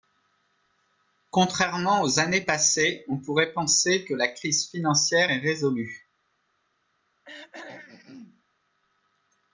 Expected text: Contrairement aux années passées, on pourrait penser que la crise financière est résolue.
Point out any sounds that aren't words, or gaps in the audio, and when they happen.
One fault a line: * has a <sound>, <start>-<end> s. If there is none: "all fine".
* has a throat clearing, 7.2-8.4 s